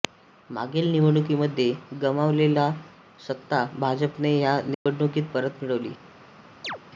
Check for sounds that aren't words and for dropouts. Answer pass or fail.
fail